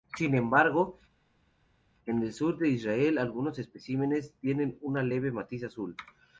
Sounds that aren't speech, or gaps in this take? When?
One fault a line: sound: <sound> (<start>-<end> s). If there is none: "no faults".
no faults